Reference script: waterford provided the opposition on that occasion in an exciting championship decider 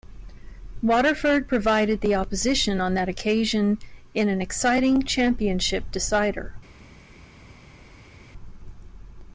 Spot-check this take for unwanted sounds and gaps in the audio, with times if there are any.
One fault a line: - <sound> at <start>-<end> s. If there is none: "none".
none